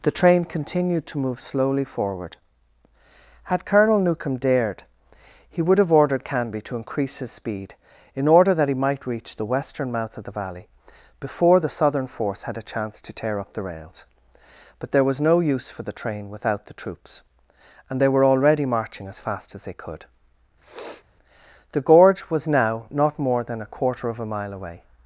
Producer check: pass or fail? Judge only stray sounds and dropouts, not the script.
fail